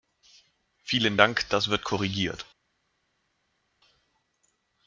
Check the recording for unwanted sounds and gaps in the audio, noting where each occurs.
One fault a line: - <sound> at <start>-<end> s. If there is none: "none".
none